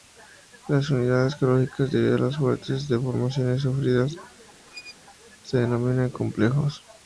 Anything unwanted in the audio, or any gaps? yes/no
yes